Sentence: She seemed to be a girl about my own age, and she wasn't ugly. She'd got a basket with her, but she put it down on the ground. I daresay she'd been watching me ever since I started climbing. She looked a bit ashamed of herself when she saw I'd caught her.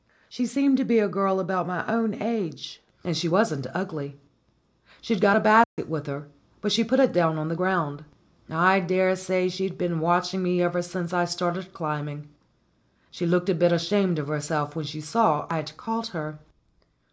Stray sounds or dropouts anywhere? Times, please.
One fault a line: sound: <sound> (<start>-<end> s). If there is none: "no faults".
sound: dropout (5.6-5.8 s)